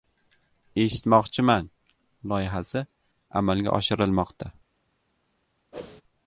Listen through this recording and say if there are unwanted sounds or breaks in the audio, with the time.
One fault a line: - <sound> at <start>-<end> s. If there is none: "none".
- whoosh at 5.7-6.0 s